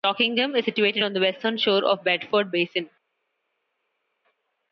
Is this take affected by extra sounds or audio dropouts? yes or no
no